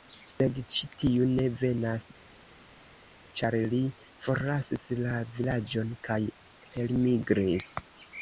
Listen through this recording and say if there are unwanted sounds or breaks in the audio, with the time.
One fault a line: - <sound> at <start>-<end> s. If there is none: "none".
none